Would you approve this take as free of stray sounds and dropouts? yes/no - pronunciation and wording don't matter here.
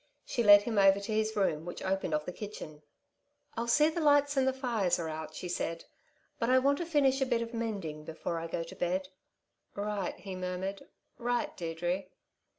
yes